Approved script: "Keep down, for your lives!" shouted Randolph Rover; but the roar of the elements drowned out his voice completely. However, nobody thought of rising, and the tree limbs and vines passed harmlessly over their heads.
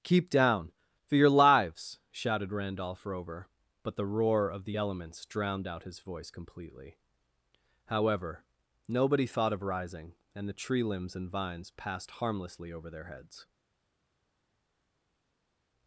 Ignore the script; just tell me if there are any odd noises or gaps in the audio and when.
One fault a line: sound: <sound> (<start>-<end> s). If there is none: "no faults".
no faults